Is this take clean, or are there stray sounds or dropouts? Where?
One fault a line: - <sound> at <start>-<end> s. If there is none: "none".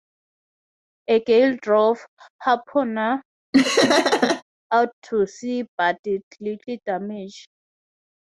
- laugh at 3.5-4.4 s